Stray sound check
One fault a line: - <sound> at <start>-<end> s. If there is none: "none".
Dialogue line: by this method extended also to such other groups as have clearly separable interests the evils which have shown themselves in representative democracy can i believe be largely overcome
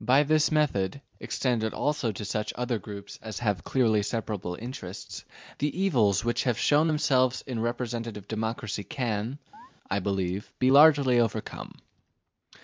- chirp at 9.5-9.7 s